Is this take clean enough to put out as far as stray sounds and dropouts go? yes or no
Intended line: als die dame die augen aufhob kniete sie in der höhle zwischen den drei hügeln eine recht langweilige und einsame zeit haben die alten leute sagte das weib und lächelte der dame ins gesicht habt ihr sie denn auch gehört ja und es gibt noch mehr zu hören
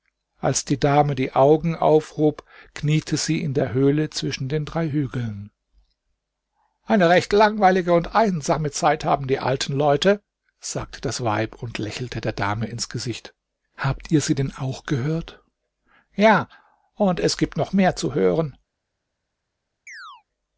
no